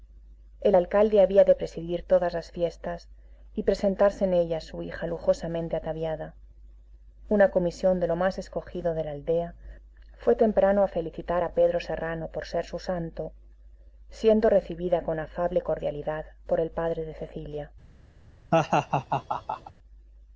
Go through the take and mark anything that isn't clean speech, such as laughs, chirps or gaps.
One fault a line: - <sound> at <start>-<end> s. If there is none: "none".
- laugh at 18.5-19.7 s